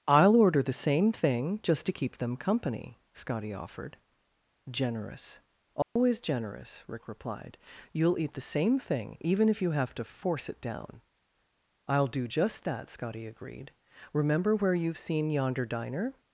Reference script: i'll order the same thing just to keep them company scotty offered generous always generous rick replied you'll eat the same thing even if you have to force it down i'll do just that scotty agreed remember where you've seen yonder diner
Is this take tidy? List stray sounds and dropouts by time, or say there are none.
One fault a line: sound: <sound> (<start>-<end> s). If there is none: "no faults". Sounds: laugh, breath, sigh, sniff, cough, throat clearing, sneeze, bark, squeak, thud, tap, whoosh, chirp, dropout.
sound: dropout (5.8-6.0 s)